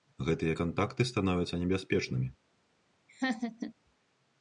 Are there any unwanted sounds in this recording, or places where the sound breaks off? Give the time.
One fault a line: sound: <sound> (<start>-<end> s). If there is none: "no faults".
sound: laugh (3.1-3.7 s)